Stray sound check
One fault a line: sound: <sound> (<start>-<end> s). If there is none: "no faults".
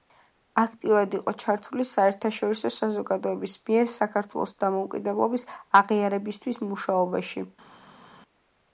no faults